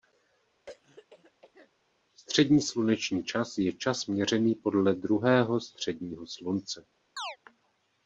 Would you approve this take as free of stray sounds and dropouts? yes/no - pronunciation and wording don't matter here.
no